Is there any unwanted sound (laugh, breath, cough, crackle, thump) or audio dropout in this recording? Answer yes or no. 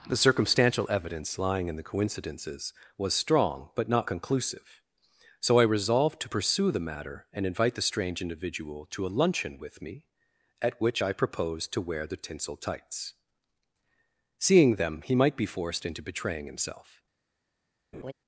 yes